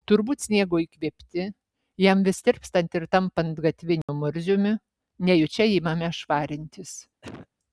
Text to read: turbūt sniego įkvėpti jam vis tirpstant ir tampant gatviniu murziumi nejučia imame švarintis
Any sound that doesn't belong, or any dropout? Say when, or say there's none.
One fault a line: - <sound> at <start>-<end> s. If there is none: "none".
- dropout at 4.0-4.1 s
- cough at 7.2-7.5 s